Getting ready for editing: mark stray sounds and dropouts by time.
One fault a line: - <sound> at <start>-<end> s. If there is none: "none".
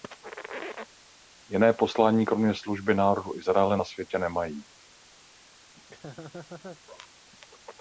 - laugh at 5.8-6.8 s